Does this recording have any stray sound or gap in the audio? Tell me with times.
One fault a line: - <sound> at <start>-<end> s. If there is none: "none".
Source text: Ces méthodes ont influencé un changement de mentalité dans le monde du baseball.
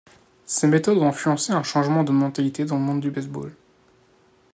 none